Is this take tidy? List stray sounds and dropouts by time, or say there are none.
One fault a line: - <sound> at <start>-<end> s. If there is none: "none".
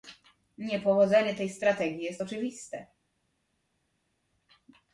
none